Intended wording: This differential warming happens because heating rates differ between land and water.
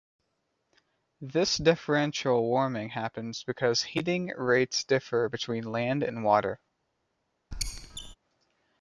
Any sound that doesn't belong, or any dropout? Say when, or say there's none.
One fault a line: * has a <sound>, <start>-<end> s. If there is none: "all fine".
* has a squeak, 7.5-8.1 s